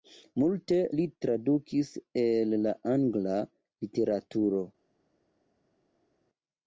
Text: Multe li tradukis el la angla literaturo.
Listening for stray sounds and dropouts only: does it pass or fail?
pass